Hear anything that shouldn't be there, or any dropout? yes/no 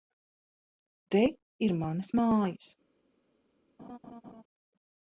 yes